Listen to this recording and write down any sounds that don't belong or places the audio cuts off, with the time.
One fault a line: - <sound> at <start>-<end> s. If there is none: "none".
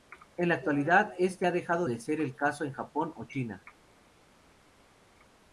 none